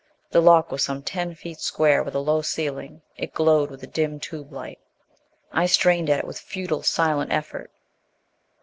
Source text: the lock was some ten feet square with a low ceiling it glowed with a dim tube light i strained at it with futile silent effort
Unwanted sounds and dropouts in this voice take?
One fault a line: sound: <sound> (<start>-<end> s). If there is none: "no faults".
no faults